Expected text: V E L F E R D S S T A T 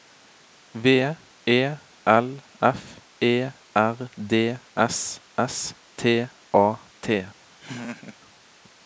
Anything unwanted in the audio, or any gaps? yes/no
yes